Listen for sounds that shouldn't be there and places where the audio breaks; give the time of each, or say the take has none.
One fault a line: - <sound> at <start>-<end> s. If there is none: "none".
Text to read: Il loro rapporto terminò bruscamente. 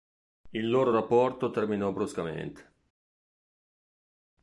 none